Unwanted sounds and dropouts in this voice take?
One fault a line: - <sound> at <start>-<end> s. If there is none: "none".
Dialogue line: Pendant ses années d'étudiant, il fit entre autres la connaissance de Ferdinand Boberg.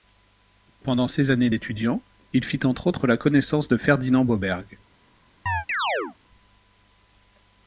- chirp at 5.5-6.2 s